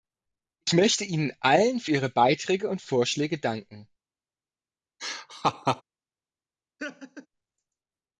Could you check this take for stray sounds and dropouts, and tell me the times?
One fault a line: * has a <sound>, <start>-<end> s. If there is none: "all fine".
* has a laugh, 5.0-5.8 s
* has a laugh, 6.8-7.3 s